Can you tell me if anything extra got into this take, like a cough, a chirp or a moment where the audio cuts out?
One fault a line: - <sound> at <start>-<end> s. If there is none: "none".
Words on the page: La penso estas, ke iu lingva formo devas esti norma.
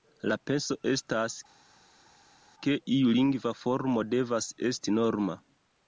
none